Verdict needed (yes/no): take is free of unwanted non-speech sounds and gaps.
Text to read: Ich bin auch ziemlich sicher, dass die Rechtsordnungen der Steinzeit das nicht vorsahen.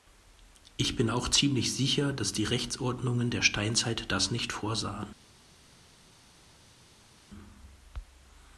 yes